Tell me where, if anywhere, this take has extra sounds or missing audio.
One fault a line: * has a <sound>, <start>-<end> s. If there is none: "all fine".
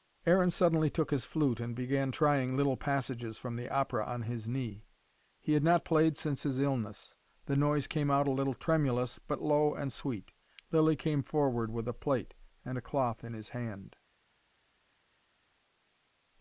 all fine